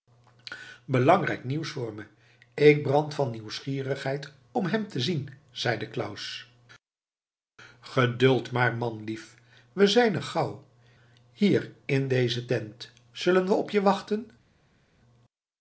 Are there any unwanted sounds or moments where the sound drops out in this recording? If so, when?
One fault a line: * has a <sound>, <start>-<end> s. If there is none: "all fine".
all fine